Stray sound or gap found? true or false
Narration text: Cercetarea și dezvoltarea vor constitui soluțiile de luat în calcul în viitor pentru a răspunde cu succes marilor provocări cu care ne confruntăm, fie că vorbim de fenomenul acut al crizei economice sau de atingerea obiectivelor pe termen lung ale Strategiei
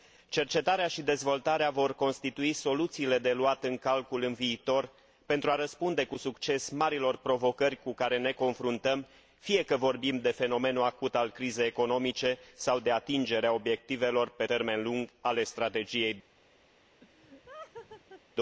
true